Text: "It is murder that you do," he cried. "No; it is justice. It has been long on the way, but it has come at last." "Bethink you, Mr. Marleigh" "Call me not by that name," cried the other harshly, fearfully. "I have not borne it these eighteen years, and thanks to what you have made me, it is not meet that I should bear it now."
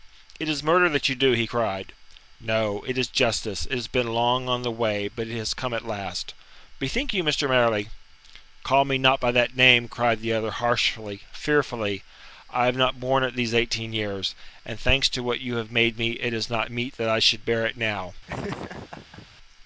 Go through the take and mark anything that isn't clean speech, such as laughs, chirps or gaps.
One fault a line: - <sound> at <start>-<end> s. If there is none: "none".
- laugh at 18.3-19.3 s